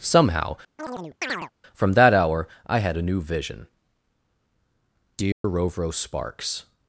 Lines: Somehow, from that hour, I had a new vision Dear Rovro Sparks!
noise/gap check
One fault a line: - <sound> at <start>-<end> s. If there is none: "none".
- chirp at 0.8-1.5 s
- dropout at 5.3-5.4 s